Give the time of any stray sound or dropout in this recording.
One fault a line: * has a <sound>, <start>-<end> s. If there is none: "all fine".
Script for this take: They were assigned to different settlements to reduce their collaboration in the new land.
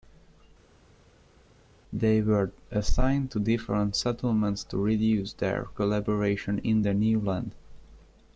all fine